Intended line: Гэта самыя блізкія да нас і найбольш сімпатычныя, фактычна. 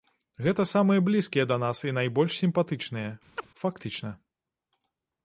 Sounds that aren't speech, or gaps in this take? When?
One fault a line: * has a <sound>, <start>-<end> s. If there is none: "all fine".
* has a chirp, 3.4-3.5 s